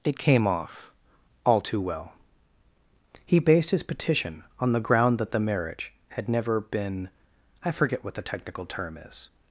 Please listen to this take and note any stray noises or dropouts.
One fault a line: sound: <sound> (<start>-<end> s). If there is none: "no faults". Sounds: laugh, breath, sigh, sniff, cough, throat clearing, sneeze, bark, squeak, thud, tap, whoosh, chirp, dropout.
no faults